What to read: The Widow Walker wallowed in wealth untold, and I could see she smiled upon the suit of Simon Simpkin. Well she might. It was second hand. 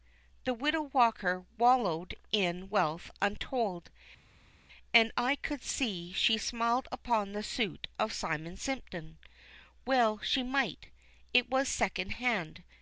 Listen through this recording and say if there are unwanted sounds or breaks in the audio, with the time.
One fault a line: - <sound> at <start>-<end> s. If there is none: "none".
none